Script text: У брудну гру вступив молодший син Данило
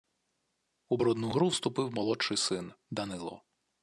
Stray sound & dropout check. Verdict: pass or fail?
pass